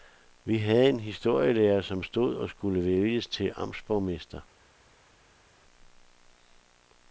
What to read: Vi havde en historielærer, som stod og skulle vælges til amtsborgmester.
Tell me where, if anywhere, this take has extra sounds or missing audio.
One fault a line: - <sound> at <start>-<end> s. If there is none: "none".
none